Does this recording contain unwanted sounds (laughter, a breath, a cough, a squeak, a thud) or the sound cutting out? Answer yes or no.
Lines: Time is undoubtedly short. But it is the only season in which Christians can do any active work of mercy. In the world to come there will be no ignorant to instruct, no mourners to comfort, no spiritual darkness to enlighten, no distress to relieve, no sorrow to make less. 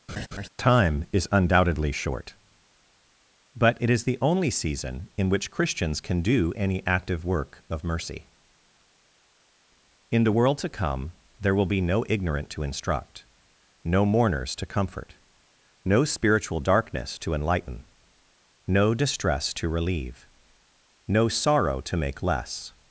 yes